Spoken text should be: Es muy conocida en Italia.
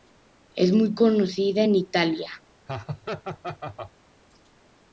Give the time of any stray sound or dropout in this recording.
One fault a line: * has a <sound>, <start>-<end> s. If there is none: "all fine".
* has a laugh, 2.7-3.9 s